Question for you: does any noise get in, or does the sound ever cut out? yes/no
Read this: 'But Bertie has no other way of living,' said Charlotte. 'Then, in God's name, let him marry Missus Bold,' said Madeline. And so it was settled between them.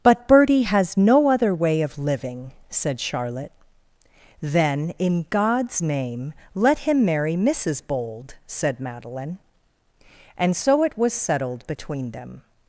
no